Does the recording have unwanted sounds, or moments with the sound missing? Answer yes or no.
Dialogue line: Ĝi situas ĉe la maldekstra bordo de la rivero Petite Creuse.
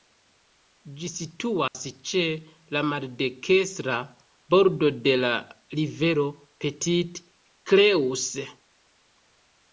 yes